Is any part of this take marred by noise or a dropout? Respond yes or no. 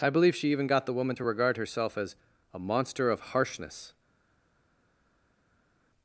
no